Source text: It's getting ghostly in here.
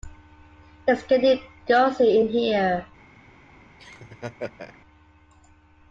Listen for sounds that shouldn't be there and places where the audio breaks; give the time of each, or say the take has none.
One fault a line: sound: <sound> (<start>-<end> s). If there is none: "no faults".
sound: laugh (3.8-4.8 s)